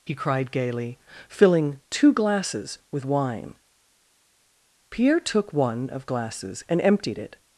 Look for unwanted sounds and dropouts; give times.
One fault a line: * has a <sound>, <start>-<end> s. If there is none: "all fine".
all fine